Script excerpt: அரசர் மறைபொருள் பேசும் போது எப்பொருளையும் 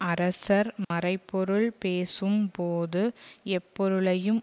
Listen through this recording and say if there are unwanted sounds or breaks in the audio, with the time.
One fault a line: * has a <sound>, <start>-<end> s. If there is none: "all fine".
* has a dropout, 0.8-0.9 s